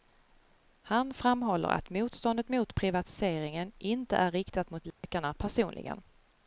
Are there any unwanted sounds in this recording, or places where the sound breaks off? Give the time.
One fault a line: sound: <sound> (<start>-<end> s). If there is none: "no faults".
sound: dropout (4.9-5.0 s)